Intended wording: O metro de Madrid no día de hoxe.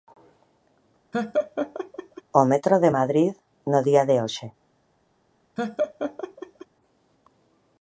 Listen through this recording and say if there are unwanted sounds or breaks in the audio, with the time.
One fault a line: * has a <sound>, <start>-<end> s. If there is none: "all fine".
* has a laugh, 1.1-2.2 s
* has a laugh, 5.6-6.7 s